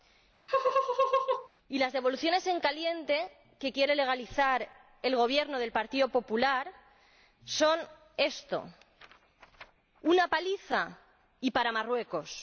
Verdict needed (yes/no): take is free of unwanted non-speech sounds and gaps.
no